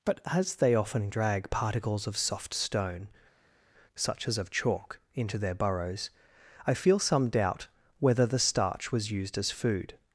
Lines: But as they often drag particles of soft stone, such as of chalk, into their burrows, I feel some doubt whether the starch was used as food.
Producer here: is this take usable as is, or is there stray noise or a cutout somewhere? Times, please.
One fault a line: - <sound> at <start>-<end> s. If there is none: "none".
none